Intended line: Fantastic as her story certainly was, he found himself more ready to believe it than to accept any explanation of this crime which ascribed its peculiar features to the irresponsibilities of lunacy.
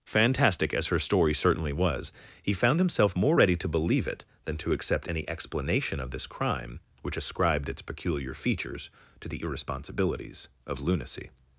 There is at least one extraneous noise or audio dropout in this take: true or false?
false